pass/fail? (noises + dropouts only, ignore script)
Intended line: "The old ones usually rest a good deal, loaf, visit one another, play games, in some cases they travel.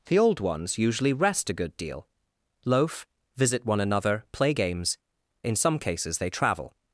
pass